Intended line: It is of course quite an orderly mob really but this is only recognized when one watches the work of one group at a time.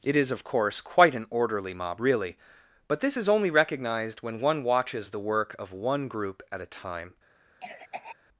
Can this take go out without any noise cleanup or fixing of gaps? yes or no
no